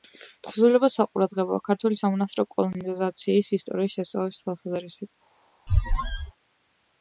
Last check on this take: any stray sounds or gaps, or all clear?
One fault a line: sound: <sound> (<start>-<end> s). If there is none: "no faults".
sound: squeak (5.7-6.3 s)